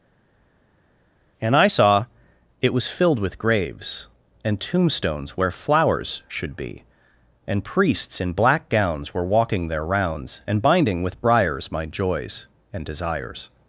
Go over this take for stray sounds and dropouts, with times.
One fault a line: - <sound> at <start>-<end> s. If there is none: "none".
none